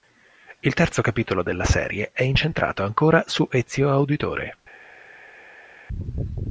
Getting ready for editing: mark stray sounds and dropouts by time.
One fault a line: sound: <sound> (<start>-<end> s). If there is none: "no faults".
no faults